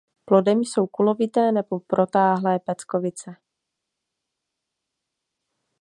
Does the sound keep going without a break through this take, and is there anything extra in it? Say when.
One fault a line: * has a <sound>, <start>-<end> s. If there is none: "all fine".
all fine